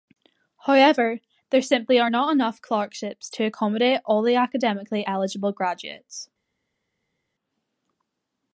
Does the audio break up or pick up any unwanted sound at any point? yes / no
no